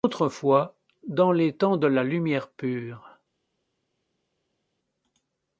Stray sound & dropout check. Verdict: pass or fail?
pass